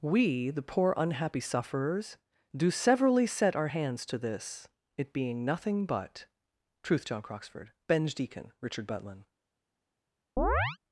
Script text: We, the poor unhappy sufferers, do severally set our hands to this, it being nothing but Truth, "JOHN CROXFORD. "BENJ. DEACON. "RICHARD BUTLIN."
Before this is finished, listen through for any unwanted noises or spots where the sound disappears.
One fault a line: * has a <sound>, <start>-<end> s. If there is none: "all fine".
* has a chirp, 10.4-10.8 s